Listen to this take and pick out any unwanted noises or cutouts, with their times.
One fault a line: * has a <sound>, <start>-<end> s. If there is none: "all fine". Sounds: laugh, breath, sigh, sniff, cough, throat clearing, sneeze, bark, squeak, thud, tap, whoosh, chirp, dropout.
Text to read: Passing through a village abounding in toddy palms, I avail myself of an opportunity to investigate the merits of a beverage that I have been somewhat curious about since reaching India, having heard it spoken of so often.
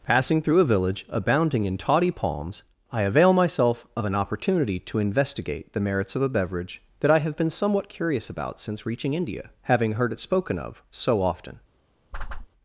* has a whoosh, 12.1-12.5 s